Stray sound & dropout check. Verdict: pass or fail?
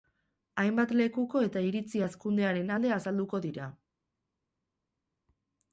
pass